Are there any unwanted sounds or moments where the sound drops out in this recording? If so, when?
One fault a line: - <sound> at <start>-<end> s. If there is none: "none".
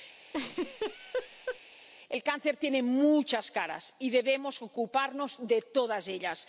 - laugh at 0.3-1.6 s